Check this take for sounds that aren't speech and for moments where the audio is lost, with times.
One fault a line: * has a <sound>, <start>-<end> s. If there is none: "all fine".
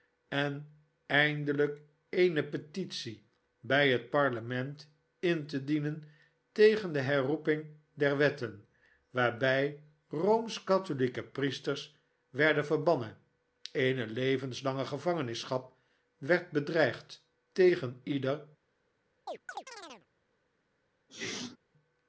* has a chirp, 19.3-20.1 s
* has a sneeze, 21.1-21.6 s